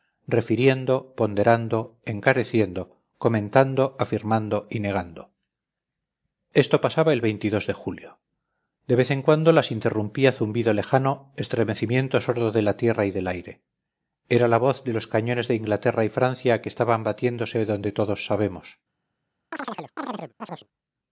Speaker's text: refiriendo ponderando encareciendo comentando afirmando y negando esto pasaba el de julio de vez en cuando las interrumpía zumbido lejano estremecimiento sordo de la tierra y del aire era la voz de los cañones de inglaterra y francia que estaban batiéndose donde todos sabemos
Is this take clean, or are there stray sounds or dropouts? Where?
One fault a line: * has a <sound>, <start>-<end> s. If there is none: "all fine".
* has a chirp, 19.5-20.7 s